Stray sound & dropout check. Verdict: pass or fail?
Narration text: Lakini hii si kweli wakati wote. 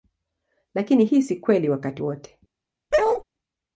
fail